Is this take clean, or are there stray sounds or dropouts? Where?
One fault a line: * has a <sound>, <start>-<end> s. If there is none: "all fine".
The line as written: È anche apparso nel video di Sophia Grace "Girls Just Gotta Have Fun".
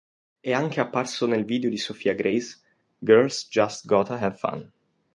all fine